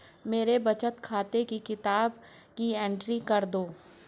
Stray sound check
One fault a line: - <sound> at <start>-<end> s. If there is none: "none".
none